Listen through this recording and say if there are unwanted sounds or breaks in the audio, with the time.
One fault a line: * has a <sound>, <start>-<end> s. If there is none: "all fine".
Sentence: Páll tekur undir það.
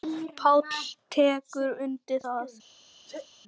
* has a sneeze, 3.1-3.3 s